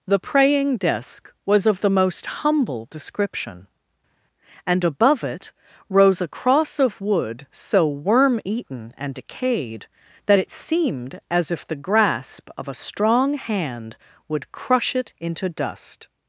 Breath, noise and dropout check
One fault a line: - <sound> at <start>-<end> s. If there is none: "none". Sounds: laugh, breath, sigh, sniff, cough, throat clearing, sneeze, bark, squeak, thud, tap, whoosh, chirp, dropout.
none